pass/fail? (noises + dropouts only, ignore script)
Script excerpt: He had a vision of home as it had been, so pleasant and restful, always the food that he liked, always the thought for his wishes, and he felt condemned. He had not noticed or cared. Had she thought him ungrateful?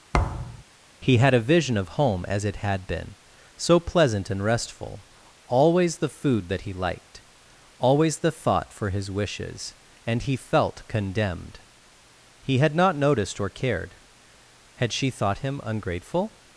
fail